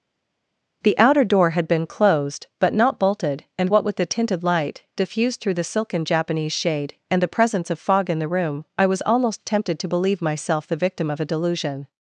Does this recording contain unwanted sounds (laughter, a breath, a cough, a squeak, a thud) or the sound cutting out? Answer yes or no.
no